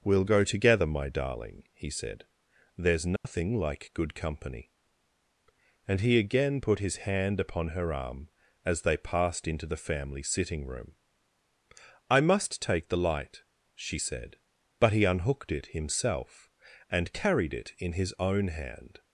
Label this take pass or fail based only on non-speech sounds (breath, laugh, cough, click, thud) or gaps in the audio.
fail